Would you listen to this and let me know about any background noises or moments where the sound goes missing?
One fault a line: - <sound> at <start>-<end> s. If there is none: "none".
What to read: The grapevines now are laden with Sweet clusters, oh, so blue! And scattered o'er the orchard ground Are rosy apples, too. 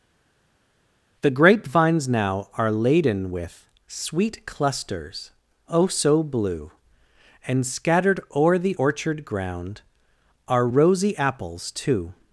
none